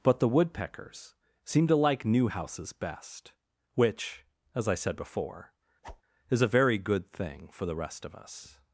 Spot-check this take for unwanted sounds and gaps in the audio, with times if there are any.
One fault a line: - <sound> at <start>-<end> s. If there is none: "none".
- whoosh at 5.8-6.0 s